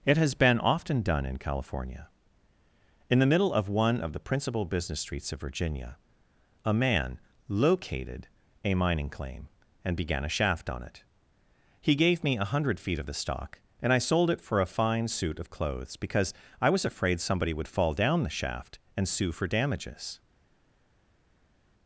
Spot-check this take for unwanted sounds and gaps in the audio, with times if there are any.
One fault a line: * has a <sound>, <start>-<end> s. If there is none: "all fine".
all fine